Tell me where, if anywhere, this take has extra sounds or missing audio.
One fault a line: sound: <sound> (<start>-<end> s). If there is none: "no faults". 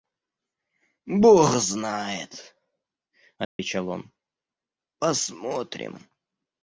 sound: dropout (3.4-3.6 s)